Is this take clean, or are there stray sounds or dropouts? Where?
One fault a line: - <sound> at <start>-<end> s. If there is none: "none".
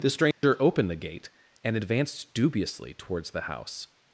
- dropout at 0.3-0.4 s